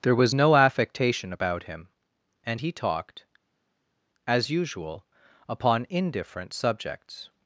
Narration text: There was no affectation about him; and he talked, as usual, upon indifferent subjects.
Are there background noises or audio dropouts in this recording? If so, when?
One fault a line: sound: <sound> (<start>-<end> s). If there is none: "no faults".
no faults